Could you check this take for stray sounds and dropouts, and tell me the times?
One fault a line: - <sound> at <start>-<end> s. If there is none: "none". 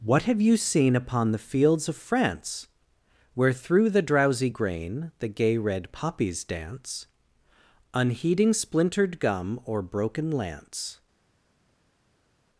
none